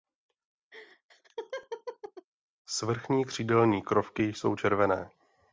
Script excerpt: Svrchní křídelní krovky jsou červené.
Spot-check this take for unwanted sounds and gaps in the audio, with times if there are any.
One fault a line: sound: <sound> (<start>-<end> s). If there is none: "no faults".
sound: laugh (0.7-2.3 s)